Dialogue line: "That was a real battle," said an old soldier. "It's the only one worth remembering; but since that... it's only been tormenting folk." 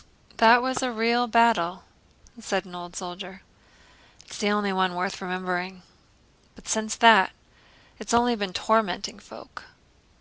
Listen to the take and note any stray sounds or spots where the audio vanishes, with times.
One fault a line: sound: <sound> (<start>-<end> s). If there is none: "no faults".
no faults